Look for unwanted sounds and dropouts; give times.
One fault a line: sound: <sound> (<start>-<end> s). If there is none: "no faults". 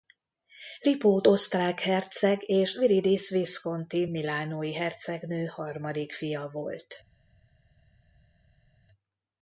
no faults